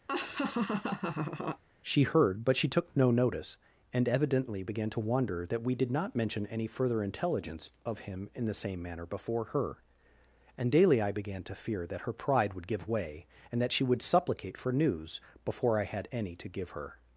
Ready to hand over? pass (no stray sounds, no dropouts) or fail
fail